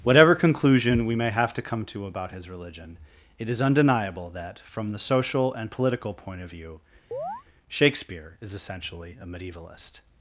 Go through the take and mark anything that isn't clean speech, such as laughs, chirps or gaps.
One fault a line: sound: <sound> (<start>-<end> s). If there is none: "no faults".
sound: chirp (7.1-7.4 s)